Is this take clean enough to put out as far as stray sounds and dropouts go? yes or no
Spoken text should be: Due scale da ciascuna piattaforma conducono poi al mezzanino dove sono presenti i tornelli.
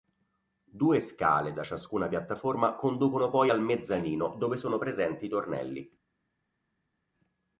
yes